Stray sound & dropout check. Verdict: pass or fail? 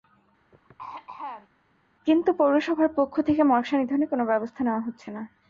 fail